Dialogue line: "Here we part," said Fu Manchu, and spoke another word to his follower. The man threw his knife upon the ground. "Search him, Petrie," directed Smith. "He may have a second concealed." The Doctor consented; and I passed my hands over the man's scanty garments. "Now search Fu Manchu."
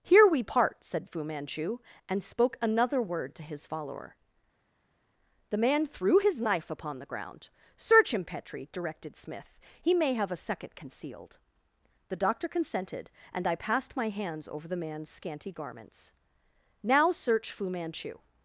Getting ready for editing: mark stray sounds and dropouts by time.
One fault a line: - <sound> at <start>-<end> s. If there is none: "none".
none